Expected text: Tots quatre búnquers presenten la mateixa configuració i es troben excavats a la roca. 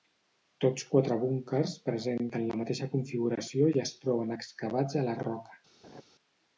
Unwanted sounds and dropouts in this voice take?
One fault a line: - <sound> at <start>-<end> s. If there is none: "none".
- laugh at 5.8-6.0 s